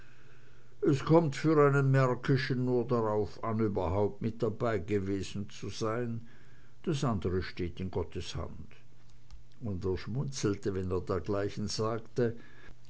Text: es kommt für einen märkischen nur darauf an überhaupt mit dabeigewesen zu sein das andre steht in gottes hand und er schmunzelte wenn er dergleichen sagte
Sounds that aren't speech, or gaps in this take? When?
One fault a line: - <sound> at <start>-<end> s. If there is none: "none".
none